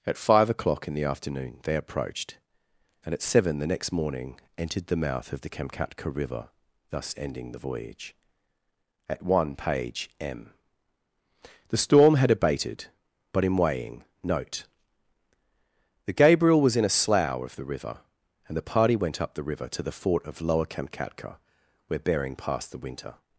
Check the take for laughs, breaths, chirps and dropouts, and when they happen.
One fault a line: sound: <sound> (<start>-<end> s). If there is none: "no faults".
no faults